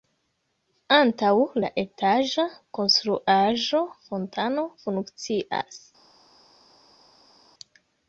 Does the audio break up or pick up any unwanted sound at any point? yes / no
no